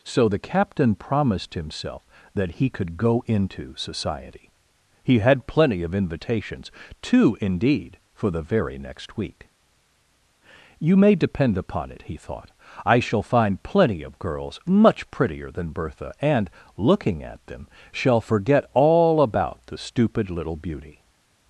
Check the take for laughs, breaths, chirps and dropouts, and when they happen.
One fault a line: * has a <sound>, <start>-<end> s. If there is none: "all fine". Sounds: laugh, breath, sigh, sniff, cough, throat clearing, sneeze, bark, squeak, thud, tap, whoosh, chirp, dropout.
all fine